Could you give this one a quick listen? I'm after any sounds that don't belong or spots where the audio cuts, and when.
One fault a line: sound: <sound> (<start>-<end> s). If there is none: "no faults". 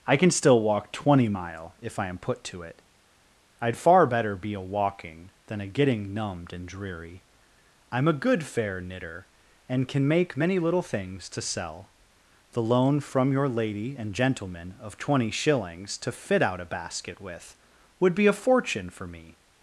no faults